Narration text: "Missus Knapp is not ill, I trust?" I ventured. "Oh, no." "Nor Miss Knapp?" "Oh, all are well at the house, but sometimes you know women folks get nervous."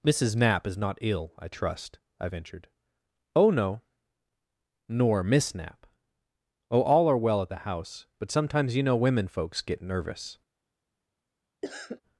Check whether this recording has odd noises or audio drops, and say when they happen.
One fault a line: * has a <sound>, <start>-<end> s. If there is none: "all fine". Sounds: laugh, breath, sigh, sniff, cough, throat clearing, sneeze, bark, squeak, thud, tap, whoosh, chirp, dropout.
* has a cough, 11.6-12.0 s